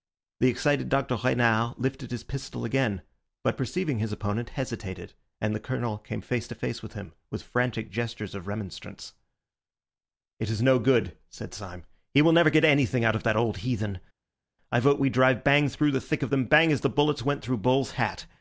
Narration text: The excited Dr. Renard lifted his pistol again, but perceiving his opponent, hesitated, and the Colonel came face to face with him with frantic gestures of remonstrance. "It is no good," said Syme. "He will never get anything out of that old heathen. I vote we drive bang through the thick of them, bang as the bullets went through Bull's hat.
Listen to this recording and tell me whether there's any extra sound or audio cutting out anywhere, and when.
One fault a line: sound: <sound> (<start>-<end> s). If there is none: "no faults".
no faults